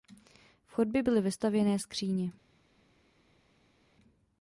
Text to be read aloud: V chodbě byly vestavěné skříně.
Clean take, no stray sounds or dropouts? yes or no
yes